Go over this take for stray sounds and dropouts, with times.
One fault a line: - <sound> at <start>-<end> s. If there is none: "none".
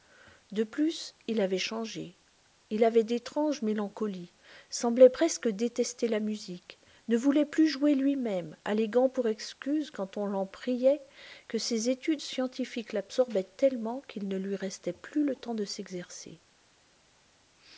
none